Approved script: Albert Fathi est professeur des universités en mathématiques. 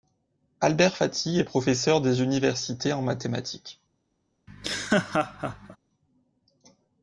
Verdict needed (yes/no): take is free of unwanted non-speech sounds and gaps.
no